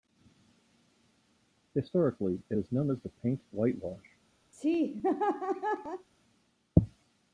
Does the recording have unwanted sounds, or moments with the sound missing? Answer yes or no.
yes